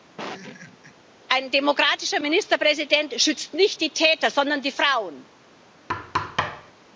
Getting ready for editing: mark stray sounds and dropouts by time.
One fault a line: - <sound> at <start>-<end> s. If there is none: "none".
- laugh at 0.2-1.0 s
- thud at 5.9-6.7 s